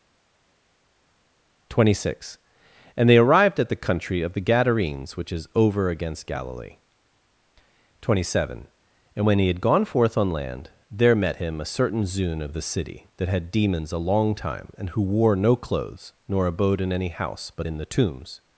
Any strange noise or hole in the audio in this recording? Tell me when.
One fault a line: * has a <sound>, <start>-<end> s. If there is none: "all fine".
all fine